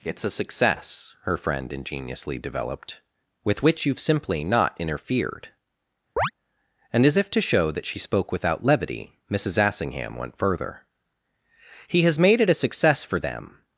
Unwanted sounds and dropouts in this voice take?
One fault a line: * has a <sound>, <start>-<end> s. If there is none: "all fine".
* has a chirp, 6.2-6.3 s